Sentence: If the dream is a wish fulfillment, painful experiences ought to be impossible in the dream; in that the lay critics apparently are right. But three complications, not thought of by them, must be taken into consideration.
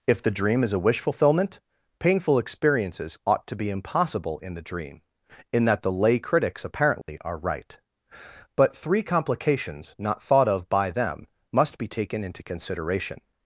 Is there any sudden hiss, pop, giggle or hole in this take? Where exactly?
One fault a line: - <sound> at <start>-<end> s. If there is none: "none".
- dropout at 7.0-7.1 s